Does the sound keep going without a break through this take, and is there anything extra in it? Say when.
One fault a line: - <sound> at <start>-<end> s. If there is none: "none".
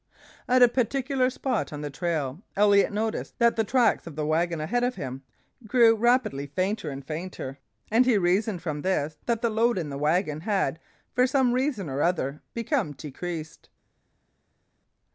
none